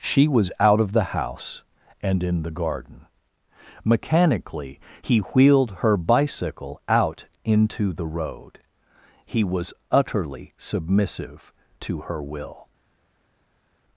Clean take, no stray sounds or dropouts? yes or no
yes